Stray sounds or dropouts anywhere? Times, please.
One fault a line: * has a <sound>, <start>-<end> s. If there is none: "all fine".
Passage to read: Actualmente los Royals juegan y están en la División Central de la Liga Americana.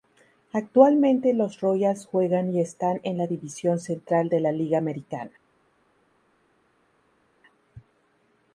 all fine